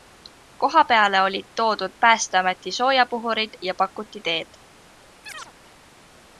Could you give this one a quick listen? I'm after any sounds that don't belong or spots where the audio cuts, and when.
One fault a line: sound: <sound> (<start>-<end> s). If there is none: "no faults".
sound: chirp (5.2-5.5 s)